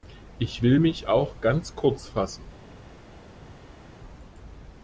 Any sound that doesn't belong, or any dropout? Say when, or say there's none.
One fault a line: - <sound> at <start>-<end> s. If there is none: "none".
none